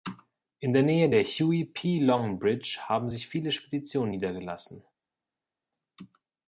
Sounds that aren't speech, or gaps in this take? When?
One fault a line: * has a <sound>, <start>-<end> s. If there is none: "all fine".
all fine